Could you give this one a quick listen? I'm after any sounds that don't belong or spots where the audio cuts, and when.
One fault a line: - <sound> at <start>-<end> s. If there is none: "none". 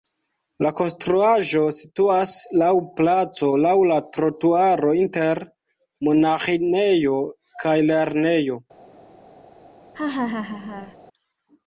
- laugh at 9.9-11.0 s